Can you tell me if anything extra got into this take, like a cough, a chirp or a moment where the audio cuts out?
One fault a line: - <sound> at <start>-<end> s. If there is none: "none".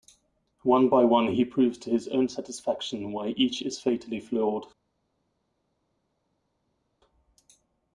none